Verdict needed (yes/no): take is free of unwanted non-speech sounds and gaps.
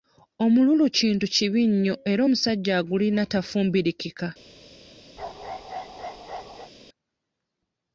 no